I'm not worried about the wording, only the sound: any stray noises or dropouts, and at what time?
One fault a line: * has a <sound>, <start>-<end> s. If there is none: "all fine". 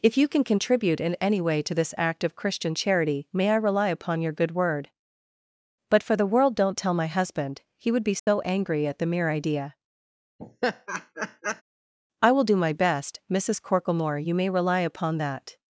* has a dropout, 8.2-8.3 s
* has a laugh, 10.4-11.6 s